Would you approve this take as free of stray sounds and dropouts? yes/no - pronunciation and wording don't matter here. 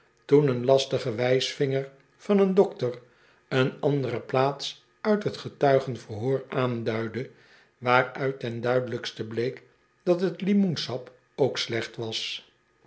yes